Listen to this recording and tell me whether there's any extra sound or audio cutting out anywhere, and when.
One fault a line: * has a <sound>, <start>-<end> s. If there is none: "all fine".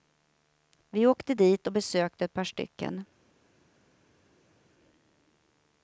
all fine